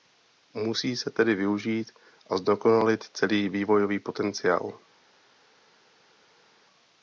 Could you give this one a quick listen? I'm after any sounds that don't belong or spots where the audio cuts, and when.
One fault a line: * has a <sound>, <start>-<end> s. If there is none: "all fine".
all fine